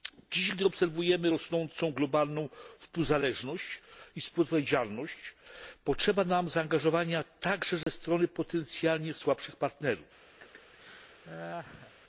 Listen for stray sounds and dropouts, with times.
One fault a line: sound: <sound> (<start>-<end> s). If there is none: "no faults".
sound: dropout (7.8-7.9 s)
sound: laugh (10.4-11.9 s)